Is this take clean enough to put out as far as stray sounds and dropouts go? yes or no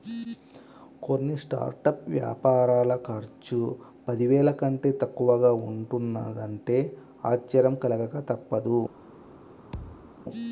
no